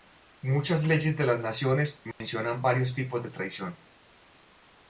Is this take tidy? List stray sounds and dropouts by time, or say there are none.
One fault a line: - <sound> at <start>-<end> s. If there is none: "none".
- dropout at 2.1-2.2 s